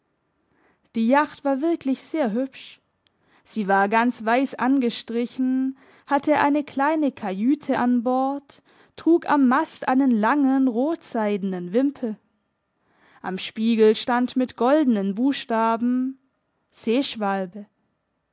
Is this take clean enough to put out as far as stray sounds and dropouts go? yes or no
yes